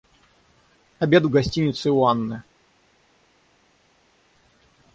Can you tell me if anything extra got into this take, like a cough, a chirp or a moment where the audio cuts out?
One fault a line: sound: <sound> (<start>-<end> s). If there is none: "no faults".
no faults